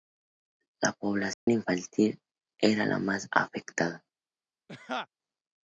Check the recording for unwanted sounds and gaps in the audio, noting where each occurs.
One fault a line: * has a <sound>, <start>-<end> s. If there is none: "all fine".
* has a dropout, 1.3-1.5 s
* has a laugh, 4.7-5.1 s